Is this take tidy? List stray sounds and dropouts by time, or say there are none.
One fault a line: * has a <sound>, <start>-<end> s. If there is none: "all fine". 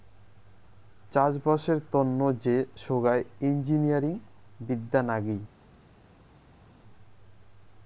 all fine